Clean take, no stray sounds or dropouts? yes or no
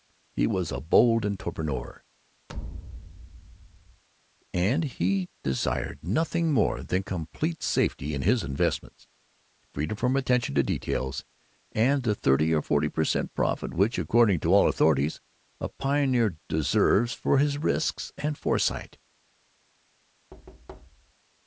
no